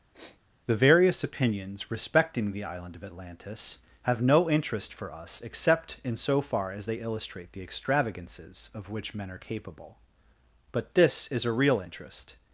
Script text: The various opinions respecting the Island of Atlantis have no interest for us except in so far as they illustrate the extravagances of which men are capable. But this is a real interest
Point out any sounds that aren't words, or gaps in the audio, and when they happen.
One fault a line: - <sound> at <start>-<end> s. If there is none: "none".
- sniff at 0.1-0.4 s